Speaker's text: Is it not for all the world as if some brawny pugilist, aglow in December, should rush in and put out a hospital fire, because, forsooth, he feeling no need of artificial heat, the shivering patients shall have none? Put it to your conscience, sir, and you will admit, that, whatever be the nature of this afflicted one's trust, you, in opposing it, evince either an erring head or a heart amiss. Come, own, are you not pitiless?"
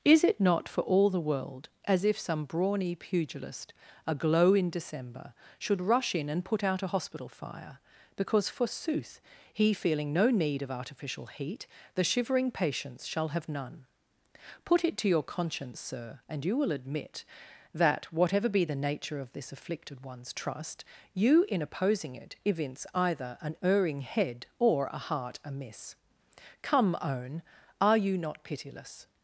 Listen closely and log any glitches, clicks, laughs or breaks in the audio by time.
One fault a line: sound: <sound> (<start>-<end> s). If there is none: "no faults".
no faults